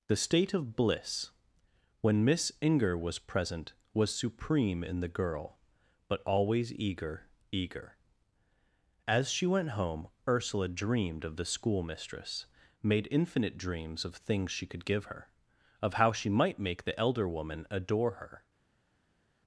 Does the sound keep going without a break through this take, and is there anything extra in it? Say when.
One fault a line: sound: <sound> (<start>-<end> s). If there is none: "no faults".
no faults